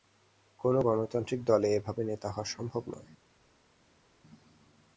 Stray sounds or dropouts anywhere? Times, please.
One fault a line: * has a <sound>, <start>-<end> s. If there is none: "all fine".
all fine